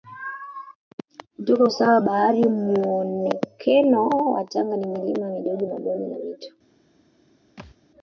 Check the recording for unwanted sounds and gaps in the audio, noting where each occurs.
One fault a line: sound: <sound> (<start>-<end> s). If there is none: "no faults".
sound: thud (7.6-7.8 s)